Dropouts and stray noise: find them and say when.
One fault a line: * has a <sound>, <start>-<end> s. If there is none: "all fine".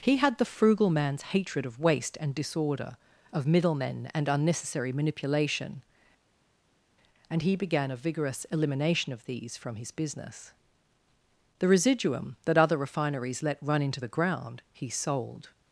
all fine